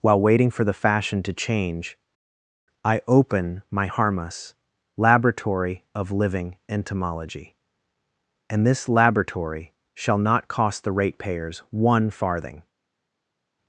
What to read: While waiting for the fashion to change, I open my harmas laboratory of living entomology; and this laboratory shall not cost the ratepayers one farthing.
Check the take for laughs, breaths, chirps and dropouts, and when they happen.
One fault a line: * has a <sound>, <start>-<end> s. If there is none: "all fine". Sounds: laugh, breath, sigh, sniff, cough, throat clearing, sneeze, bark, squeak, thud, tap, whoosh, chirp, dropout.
all fine